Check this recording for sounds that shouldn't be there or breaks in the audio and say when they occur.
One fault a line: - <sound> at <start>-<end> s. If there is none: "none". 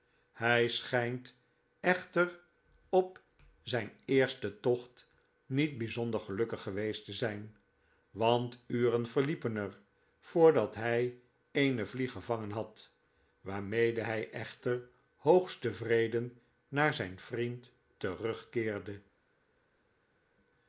none